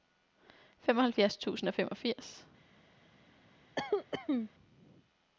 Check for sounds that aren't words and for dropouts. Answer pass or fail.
fail